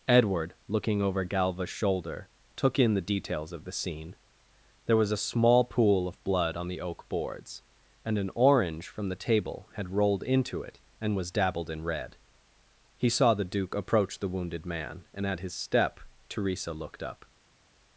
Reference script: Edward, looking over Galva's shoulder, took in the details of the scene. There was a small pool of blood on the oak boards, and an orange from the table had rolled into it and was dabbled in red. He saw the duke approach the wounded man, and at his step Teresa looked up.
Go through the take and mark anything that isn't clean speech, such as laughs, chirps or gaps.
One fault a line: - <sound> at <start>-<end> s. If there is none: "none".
none